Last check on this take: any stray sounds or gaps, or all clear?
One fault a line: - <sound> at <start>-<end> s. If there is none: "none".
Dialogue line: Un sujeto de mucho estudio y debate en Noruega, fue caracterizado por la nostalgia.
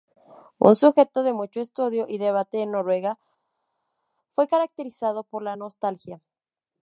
none